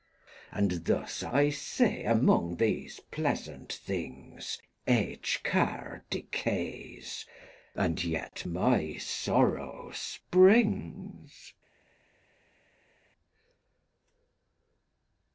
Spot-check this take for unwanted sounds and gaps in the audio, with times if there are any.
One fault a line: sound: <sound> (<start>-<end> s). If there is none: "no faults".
no faults